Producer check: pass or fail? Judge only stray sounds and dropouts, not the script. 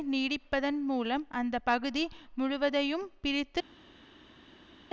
pass